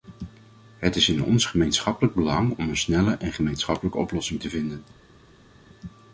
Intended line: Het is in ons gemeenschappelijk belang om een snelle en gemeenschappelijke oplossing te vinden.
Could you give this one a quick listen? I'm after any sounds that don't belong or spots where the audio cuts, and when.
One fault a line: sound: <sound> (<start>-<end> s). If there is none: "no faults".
no faults